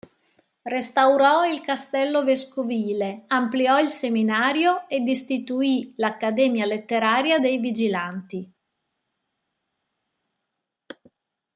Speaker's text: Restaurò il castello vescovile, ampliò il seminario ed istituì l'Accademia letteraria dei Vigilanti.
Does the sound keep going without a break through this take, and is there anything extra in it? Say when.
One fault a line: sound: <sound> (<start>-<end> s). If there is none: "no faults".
no faults